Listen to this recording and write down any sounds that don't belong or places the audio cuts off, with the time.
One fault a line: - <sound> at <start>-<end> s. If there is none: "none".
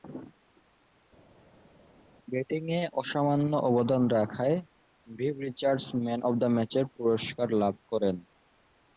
none